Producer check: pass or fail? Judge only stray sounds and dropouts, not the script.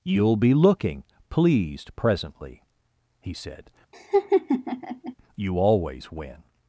fail